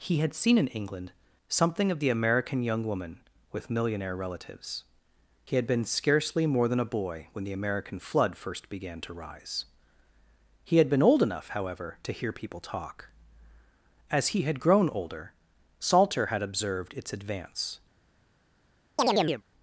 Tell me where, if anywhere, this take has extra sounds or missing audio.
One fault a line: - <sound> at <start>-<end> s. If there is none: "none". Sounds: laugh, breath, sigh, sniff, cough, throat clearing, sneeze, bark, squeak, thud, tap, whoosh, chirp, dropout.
- chirp at 19.0-19.4 s